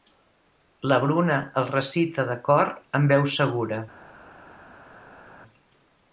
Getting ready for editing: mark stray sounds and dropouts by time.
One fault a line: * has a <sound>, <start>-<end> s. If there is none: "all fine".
all fine